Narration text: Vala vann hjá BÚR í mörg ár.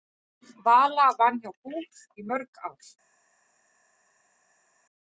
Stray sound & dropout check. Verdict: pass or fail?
pass